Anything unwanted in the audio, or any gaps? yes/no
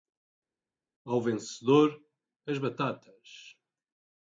no